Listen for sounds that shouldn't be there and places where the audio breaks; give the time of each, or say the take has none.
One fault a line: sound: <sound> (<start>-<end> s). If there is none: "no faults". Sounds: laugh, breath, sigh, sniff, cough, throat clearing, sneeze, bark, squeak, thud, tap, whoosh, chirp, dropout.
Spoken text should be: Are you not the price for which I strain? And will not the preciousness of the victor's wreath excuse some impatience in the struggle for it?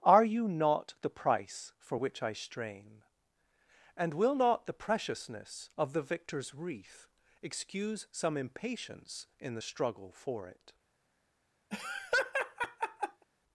sound: laugh (11.7-13.2 s)